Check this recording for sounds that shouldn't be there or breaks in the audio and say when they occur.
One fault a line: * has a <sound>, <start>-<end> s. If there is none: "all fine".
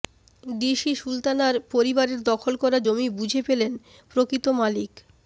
all fine